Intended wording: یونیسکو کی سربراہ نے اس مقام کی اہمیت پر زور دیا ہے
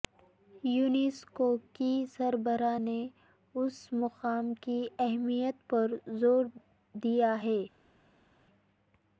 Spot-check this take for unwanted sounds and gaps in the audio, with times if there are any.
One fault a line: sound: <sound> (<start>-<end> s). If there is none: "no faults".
no faults